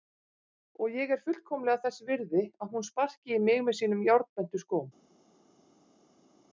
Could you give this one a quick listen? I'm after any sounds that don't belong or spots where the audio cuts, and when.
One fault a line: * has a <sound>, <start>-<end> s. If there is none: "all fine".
all fine